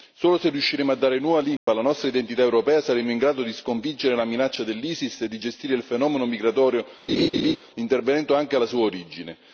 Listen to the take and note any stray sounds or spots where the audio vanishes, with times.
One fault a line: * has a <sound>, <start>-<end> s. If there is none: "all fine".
* has a dropout, 1.6-1.7 s
* has a laugh, 7.1-7.6 s